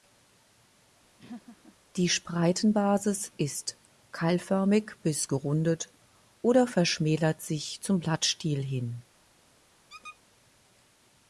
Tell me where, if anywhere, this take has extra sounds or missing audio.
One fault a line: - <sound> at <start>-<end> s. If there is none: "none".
- laugh at 1.2-1.8 s
- squeak at 9.9-10.2 s